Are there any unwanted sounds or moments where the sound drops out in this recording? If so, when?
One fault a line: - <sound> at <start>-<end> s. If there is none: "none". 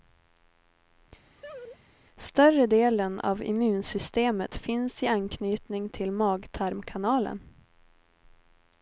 - laugh at 1.4-1.8 s